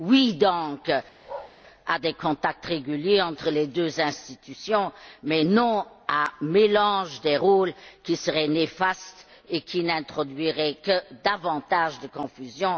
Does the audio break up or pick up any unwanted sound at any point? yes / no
yes